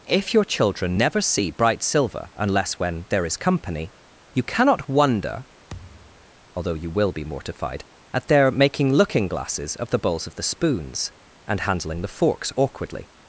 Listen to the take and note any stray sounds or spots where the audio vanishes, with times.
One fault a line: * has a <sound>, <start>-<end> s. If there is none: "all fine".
* has a thud, 5.7-6.3 s